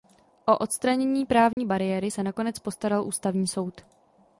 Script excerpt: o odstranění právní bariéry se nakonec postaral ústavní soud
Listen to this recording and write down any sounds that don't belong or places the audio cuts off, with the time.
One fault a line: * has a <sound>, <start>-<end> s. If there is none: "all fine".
* has a dropout, 1.5-1.6 s